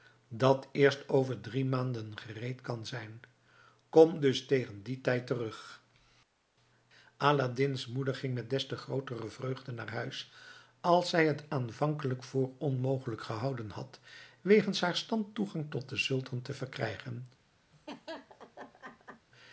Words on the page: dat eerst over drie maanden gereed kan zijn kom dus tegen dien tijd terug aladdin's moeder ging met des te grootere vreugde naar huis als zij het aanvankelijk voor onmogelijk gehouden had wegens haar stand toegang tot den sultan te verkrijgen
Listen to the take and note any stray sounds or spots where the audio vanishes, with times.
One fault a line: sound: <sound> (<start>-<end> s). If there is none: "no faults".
sound: laugh (17.7-19.3 s)